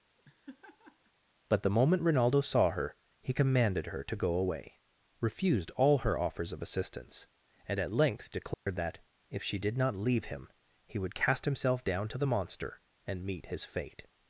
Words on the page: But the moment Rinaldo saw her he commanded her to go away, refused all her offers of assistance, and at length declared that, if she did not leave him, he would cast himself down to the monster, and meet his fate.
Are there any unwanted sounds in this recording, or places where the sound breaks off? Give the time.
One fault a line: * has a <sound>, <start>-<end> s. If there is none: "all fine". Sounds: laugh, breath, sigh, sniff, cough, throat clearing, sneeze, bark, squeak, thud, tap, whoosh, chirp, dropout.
* has a laugh, 0.2-1.1 s
* has a dropout, 8.5-8.7 s